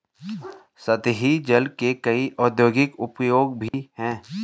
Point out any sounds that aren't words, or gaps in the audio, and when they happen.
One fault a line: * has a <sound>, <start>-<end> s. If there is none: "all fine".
* has a dropout, 3.7-3.7 s